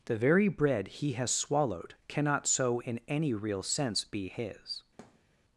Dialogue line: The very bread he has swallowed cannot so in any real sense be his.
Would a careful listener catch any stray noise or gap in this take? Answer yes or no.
yes